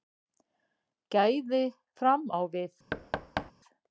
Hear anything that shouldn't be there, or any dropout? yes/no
yes